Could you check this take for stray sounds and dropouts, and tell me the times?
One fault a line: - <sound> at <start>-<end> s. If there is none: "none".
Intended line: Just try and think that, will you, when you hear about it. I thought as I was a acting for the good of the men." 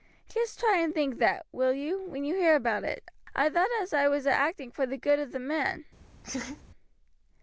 - laugh at 6.2-6.6 s